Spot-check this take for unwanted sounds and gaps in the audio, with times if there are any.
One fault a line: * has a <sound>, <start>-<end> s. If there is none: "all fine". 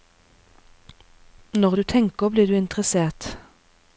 all fine